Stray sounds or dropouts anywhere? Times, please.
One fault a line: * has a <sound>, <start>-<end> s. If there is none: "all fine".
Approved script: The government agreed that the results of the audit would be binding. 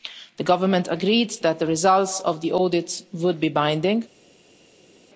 all fine